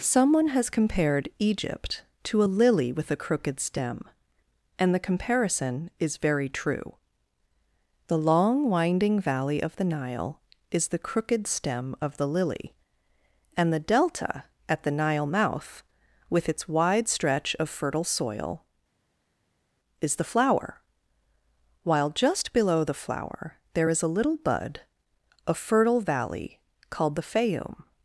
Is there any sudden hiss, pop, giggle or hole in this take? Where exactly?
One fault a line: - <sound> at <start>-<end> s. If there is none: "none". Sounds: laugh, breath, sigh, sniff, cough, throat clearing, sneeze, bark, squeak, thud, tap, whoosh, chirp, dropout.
none